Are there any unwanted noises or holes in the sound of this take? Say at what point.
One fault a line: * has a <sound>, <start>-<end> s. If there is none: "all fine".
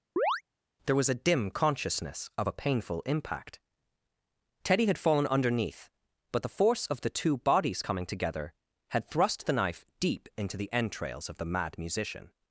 * has a chirp, 0.2-0.4 s